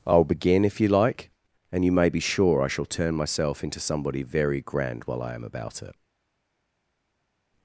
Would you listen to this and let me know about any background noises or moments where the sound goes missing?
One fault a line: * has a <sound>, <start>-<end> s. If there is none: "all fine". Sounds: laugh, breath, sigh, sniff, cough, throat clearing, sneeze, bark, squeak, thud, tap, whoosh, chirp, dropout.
all fine